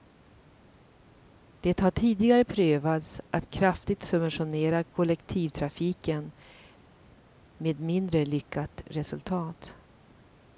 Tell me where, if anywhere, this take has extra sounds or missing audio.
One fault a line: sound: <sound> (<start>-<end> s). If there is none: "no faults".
no faults